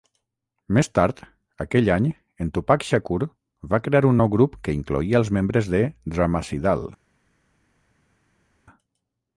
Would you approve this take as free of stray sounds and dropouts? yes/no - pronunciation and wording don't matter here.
yes